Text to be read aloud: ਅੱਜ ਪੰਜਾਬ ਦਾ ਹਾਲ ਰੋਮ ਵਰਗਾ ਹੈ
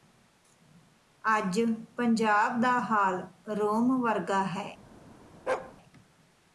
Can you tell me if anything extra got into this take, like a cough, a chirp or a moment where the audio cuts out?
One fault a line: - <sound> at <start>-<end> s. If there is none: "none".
- bark at 5.5-5.7 s